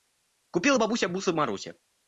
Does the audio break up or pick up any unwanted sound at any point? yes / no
no